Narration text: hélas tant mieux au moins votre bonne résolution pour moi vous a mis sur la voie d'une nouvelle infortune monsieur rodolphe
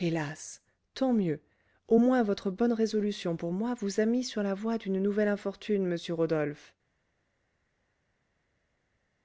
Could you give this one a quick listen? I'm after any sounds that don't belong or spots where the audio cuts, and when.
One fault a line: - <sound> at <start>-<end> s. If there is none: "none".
none